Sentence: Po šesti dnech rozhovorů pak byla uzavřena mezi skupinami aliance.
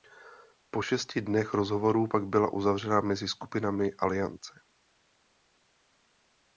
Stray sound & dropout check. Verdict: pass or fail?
pass